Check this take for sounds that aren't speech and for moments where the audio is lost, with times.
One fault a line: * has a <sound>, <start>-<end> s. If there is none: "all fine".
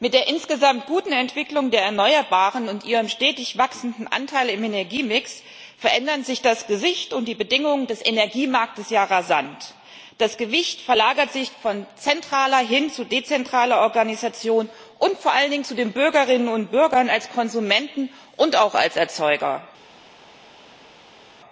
all fine